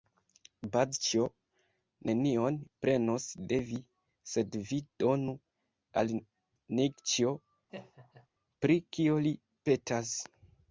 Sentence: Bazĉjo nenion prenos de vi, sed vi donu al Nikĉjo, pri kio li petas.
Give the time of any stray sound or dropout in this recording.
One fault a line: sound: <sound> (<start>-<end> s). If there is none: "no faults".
sound: laugh (7.7-8.3 s)